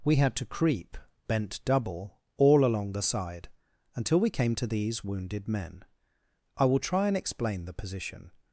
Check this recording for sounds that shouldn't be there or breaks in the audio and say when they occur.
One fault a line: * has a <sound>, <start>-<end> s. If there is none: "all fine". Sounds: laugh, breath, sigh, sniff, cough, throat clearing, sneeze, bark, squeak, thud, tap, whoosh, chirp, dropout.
all fine